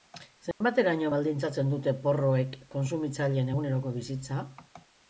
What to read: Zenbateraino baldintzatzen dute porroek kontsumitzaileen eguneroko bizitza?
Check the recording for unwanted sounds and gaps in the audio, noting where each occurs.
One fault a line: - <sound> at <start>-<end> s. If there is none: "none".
- dropout at 0.5-0.6 s